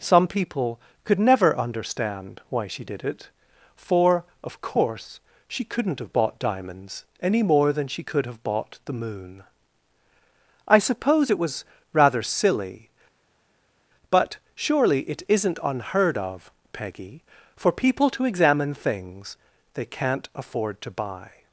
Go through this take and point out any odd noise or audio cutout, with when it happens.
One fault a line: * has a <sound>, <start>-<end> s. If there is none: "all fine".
all fine